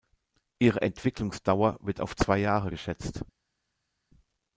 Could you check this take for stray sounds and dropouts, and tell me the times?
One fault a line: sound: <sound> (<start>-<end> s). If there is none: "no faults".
no faults